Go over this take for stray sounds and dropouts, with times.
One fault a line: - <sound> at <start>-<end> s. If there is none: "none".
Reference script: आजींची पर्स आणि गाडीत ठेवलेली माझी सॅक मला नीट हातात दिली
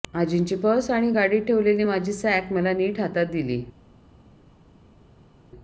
none